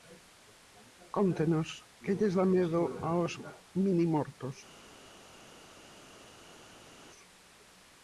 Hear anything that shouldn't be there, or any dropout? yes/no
no